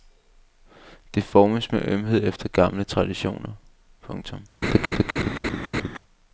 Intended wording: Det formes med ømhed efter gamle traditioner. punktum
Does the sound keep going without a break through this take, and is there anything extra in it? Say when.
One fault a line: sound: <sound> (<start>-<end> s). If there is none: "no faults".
sound: laugh (4.6-6.0 s)